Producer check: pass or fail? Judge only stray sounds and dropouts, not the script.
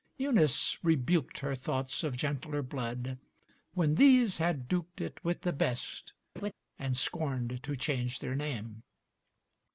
fail